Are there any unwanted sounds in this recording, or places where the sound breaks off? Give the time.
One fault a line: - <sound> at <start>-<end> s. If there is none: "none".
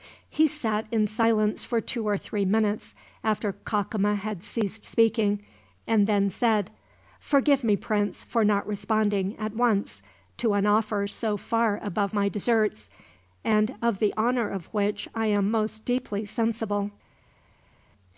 none